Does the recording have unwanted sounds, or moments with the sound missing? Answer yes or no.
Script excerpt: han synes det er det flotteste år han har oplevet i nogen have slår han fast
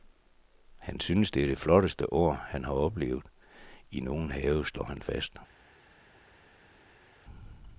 no